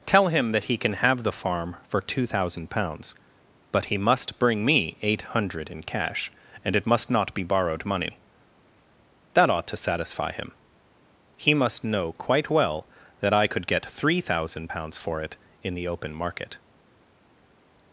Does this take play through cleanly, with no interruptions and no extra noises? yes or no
yes